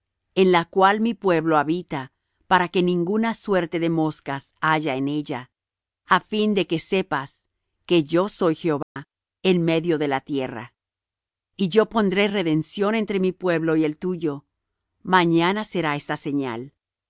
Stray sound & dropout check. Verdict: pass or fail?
fail